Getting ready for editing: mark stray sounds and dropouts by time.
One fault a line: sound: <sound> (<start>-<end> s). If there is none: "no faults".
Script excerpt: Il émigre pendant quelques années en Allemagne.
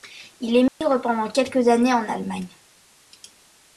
sound: dropout (0.7-0.8 s)